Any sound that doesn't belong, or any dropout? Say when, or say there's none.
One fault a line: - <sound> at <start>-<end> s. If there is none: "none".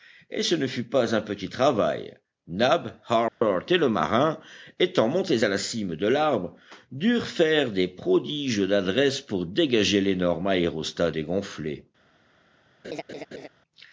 - dropout at 3.3-3.4 s
- laugh at 12.8-13.5 s